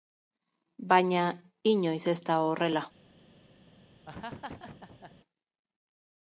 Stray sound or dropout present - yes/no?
yes